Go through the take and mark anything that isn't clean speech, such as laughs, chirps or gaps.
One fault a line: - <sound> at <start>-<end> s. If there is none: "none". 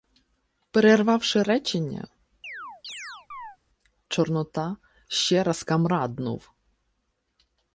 - chirp at 2.4-3.6 s